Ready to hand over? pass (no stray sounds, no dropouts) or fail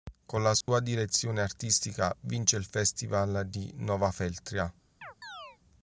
fail